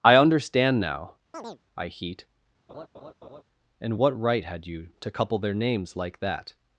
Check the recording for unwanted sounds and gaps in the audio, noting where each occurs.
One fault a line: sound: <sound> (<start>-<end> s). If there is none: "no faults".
sound: chirp (1.3-1.6 s)
sound: laugh (2.7-3.4 s)